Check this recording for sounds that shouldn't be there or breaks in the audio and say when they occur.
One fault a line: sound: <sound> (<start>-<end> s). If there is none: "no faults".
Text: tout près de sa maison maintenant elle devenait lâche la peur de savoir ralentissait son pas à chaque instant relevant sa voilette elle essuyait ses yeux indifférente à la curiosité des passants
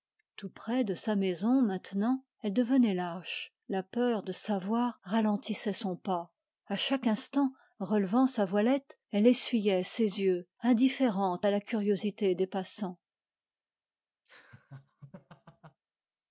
sound: laugh (14.3-15.8 s)